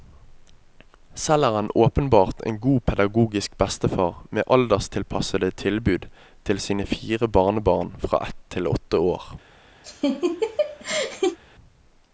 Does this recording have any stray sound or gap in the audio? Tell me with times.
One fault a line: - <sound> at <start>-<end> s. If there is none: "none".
- laugh at 9.8-11.4 s